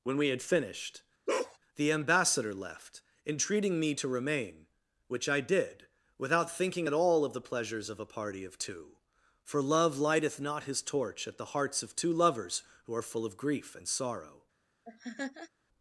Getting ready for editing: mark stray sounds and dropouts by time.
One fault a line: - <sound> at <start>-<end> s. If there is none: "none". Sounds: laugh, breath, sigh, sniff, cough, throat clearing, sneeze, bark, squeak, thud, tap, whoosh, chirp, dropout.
- bark at 1.3-1.6 s
- laugh at 14.8-15.5 s